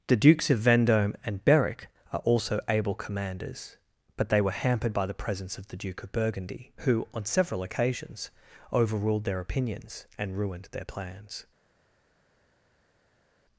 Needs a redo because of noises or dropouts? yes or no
no